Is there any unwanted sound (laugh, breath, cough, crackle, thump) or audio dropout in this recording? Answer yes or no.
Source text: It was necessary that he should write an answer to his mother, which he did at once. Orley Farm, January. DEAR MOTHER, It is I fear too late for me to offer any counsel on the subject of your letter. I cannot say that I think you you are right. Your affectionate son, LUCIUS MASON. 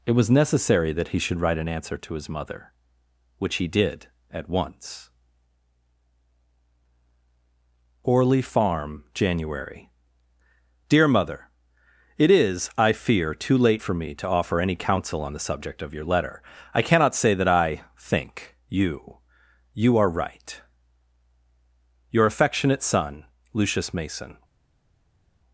no